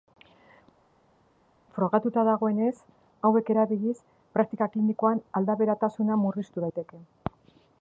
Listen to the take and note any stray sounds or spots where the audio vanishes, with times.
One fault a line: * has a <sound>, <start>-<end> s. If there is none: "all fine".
all fine